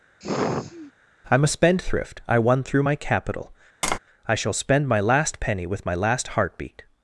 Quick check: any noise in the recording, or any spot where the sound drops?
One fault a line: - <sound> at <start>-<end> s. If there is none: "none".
- sigh at 0.2-0.9 s
- tap at 3.8-4.0 s